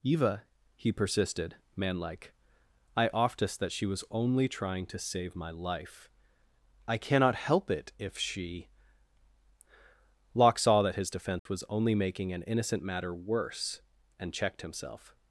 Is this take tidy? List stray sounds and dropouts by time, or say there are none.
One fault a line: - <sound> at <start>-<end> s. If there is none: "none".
- dropout at 11.4-11.5 s